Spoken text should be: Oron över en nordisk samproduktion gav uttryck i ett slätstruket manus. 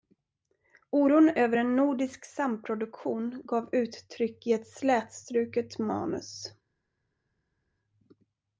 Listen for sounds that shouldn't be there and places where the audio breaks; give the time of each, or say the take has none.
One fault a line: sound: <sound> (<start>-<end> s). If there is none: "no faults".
no faults